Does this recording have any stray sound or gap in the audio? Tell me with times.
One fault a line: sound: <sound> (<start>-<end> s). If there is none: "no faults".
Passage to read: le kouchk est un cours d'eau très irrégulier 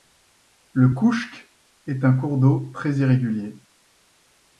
no faults